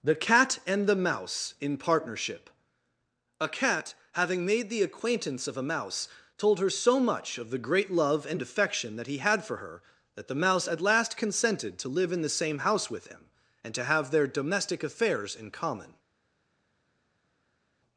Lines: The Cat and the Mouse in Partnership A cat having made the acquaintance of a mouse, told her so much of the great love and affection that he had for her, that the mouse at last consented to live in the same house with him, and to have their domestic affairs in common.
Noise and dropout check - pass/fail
pass